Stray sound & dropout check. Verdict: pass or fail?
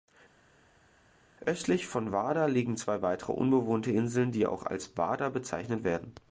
pass